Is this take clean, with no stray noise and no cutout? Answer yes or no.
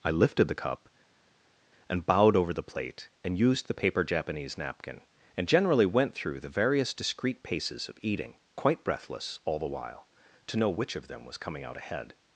yes